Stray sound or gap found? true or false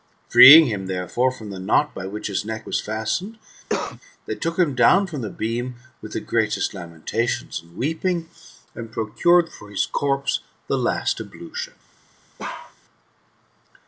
true